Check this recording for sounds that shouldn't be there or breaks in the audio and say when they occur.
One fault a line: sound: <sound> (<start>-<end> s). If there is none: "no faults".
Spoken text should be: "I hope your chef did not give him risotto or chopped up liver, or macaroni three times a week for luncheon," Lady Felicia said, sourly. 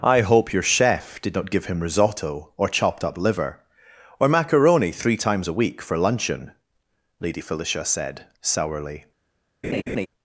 sound: laugh (9.6-10.1 s)